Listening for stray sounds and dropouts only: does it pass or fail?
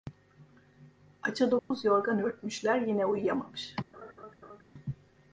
fail